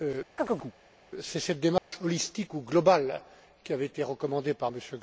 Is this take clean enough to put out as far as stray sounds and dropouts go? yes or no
no